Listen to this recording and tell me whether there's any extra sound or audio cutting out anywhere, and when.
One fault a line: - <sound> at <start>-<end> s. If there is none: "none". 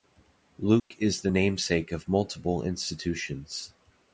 - dropout at 0.8-0.9 s